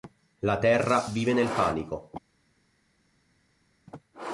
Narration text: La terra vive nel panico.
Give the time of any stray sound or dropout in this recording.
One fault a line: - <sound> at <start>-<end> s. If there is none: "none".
none